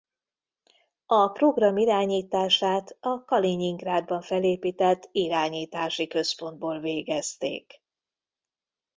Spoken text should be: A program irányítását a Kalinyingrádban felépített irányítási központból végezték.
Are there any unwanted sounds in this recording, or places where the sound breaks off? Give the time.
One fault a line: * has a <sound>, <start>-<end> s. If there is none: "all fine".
all fine